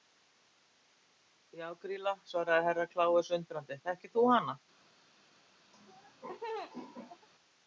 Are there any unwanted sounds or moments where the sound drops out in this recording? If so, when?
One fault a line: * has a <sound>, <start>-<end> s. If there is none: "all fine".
* has a laugh, 5.7-7.3 s